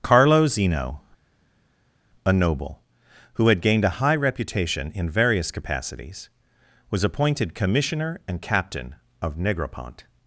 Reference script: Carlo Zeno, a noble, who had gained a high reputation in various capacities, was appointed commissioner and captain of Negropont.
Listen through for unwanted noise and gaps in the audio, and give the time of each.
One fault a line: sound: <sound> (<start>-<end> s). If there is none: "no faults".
no faults